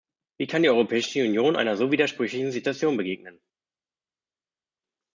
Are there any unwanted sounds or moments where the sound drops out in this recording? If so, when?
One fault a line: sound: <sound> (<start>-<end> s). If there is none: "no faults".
no faults